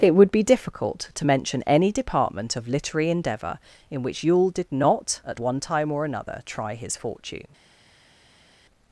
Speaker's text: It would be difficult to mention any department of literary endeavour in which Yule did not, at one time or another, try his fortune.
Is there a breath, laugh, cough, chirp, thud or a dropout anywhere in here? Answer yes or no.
no